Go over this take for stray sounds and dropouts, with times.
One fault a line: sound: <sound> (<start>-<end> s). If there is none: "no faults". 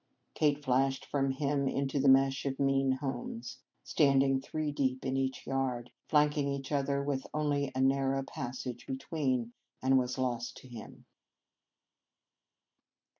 no faults